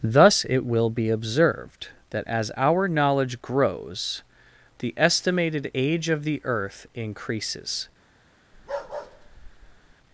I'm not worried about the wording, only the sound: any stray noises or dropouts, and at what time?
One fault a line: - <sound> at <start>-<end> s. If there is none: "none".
- bark at 8.5-9.9 s